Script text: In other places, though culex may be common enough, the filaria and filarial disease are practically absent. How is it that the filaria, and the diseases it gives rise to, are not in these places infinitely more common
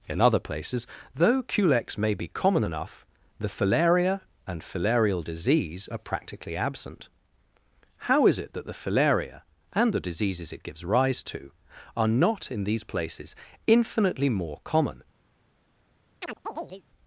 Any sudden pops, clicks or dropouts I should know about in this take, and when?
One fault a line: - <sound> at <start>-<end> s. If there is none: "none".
- chirp at 16.2-16.8 s